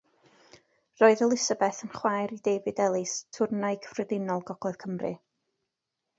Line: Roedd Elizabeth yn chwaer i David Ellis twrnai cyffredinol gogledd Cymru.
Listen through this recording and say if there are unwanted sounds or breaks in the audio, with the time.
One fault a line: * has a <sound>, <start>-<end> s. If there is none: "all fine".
all fine